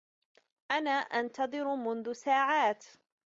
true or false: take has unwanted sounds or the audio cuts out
false